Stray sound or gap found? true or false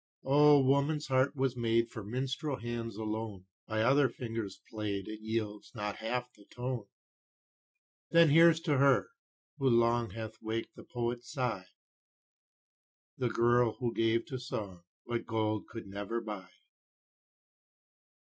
false